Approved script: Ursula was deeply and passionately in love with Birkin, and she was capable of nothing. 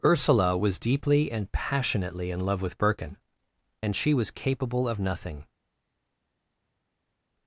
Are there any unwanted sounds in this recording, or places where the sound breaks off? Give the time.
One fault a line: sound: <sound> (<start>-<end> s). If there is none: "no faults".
no faults